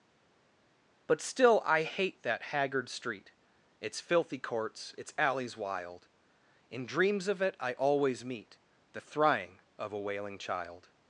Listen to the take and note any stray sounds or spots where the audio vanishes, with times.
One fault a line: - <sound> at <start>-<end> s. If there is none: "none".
none